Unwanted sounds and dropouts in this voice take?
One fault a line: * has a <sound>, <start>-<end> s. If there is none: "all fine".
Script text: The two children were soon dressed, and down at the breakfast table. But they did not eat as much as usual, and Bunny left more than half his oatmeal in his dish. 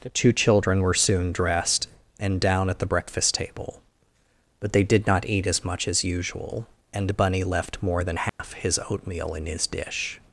* has a dropout, 8.3-8.4 s